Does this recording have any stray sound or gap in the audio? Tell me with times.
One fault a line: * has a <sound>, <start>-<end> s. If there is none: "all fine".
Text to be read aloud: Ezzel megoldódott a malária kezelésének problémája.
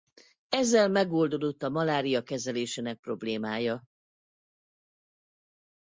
all fine